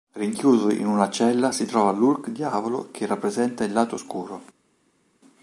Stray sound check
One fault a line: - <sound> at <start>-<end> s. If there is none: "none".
none